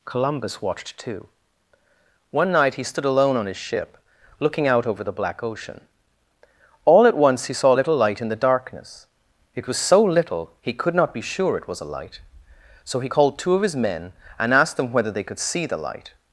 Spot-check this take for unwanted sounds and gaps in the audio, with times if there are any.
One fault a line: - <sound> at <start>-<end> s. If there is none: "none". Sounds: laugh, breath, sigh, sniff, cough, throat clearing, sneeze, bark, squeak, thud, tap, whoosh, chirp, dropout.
none